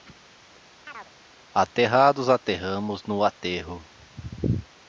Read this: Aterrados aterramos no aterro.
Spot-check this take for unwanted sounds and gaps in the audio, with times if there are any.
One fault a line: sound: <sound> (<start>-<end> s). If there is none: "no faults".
sound: chirp (0.9-1.1 s)